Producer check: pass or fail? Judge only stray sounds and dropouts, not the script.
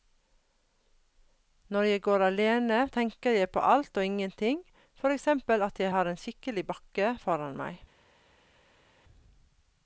pass